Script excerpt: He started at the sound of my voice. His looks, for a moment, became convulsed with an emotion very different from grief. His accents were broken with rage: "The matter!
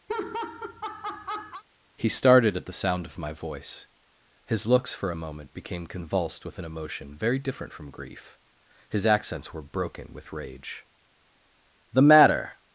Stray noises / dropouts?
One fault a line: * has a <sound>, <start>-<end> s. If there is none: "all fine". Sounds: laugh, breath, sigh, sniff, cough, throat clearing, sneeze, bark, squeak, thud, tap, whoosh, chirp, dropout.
* has a laugh, 0.1-1.6 s